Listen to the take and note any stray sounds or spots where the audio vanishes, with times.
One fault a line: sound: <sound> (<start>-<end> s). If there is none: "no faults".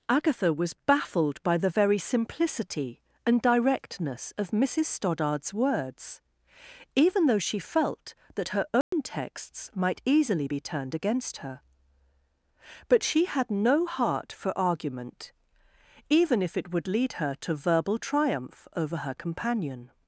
sound: dropout (8.8-8.9 s)